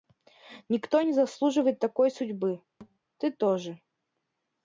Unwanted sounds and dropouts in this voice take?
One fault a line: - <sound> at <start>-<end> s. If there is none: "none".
- thud at 2.8-3.0 s